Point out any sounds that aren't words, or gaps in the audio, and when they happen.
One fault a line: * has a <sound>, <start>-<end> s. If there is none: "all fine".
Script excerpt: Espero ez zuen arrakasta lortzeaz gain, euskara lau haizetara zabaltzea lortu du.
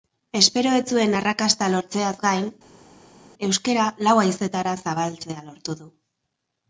all fine